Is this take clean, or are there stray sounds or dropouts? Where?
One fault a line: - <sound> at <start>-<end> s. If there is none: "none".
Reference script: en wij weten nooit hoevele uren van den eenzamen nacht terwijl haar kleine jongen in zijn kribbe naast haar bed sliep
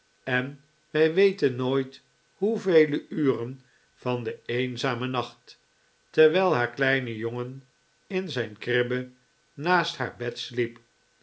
none